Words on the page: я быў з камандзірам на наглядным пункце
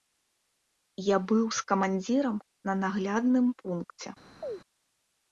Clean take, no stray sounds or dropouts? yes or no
no